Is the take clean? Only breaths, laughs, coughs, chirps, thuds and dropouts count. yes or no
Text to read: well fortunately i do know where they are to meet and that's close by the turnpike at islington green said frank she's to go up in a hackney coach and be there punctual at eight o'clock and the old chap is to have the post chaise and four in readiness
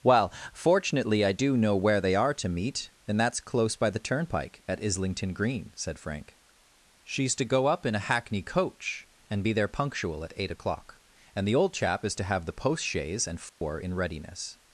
no